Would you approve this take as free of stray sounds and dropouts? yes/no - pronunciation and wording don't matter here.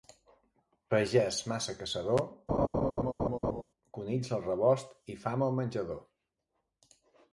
no